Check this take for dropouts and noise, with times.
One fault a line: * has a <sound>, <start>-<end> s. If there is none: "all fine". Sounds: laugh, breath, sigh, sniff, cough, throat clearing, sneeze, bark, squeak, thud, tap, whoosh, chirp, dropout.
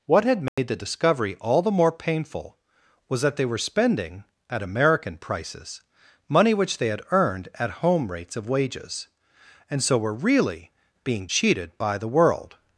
* has a dropout, 0.5-0.6 s